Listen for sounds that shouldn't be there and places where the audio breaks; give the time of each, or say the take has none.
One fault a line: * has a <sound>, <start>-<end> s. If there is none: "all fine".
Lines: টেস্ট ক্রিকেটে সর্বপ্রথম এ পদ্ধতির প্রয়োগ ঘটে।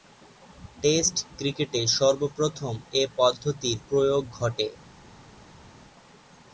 all fine